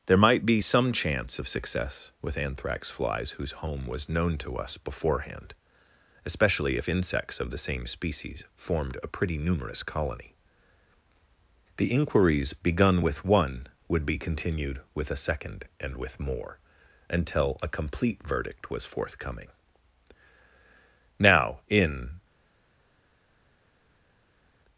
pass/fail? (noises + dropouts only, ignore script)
pass